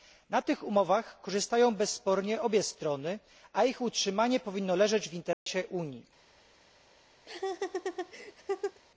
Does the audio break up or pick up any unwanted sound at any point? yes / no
yes